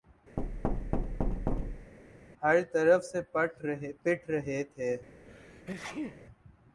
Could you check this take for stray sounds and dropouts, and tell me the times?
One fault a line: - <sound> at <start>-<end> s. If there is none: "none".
- thud at 0.4-1.9 s
- sneeze at 5.2-6.2 s